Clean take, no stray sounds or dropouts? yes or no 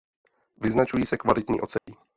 no